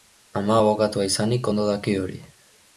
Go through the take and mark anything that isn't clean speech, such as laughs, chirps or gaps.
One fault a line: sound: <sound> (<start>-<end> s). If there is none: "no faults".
no faults